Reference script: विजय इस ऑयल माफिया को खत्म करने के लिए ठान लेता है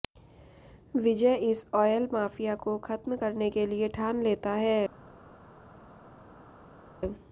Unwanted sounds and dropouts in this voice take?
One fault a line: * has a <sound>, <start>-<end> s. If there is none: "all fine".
all fine